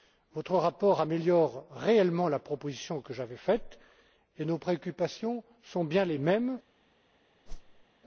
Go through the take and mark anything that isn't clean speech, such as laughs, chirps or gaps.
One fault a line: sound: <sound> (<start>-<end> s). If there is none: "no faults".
sound: whoosh (7.5-7.9 s)